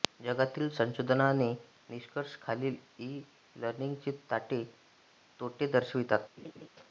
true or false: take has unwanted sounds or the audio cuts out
true